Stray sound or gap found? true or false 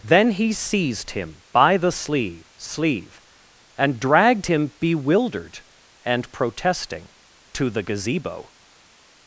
false